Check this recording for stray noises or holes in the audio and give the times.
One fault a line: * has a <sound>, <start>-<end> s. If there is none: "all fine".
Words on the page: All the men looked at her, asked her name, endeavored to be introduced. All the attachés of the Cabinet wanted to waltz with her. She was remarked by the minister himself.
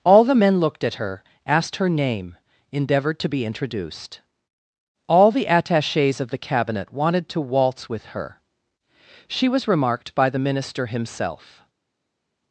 all fine